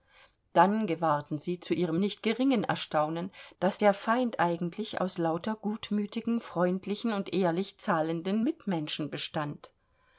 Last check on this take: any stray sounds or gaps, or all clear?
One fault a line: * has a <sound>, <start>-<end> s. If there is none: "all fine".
all fine